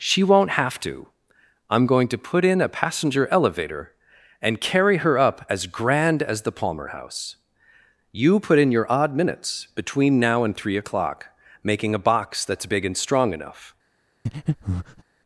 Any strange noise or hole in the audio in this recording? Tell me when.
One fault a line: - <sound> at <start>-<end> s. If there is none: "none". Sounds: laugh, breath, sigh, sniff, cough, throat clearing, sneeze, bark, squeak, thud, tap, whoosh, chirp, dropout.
- breath at 14.3-15.0 s